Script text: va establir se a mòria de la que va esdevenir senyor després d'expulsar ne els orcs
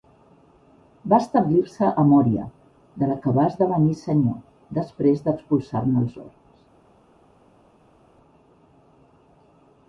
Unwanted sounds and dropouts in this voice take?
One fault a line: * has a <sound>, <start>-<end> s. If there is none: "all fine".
all fine